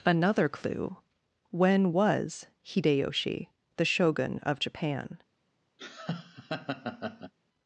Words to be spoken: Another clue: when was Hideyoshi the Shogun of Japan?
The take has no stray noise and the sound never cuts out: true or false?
false